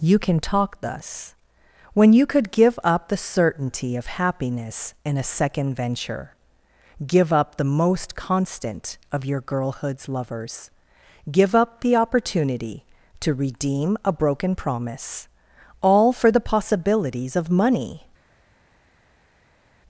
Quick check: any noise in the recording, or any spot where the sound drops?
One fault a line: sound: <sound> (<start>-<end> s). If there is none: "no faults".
no faults